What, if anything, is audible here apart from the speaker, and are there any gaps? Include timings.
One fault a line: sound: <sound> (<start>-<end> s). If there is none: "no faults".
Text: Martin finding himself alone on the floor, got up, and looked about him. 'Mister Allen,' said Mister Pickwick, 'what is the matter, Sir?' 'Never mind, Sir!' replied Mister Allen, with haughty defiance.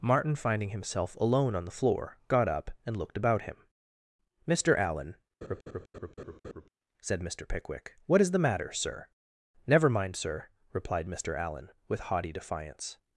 sound: laugh (5.4-6.7 s)